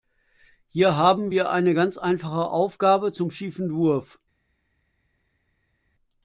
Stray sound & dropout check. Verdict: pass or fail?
pass